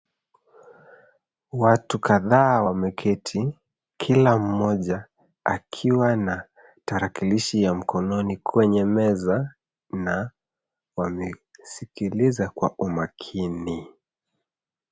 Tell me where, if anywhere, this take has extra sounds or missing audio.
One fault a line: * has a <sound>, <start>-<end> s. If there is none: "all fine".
all fine